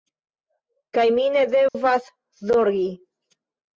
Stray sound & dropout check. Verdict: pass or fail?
fail